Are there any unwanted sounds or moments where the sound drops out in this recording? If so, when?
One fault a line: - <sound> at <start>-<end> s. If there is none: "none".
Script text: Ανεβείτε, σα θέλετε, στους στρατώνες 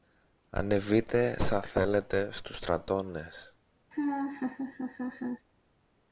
- laugh at 3.9-5.5 s